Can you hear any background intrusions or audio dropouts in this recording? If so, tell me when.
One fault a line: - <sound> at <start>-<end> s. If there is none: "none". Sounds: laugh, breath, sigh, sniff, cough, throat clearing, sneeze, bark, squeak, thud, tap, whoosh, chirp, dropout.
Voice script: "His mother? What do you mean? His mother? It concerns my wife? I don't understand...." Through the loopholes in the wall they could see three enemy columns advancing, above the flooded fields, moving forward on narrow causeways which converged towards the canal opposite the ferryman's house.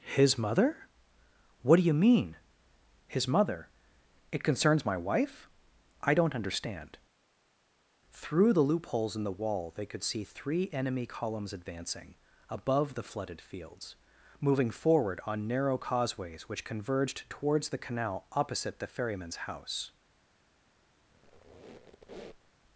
- squeak at 21.1-22.5 s